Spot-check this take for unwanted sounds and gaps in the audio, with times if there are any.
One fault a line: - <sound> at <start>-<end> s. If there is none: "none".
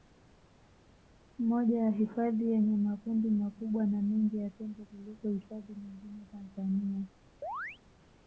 - chirp at 7.4-7.8 s